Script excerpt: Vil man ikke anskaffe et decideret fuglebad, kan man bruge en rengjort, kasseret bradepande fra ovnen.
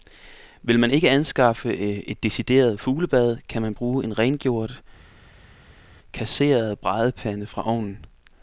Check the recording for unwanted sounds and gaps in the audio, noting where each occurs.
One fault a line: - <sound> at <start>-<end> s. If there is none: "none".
none